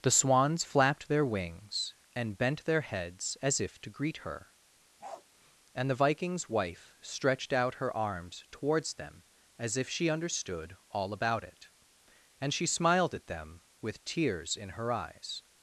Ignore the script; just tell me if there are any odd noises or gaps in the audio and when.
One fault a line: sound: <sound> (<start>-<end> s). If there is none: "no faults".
sound: bark (5.0-5.3 s)